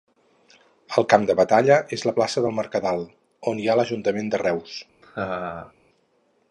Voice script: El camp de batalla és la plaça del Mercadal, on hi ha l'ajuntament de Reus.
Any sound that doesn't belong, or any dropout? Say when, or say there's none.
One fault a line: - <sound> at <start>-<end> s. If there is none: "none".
- laugh at 5.0-5.7 s